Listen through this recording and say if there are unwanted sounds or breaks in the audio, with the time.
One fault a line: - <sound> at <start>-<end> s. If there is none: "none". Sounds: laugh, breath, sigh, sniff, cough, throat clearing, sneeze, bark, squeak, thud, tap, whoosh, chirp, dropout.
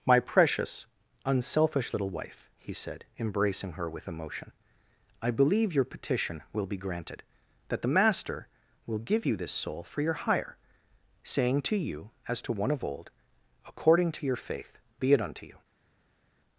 none